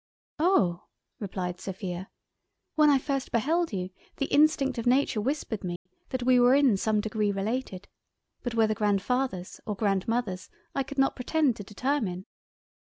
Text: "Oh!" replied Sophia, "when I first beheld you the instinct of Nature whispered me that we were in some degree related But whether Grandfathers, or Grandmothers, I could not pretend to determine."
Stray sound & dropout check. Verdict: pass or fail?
fail